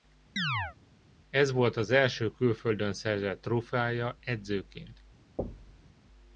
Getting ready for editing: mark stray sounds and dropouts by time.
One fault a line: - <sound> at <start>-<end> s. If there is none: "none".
- chirp at 0.4-0.8 s
- thud at 5.4-5.9 s